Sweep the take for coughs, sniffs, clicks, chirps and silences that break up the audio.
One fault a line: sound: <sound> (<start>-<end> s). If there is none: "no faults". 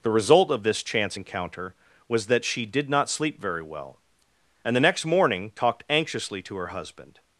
no faults